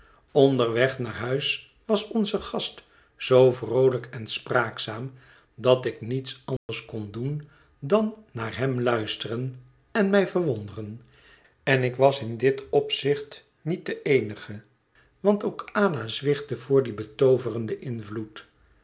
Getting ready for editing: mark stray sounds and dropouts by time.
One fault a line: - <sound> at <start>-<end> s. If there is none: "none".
- dropout at 6.6-6.7 s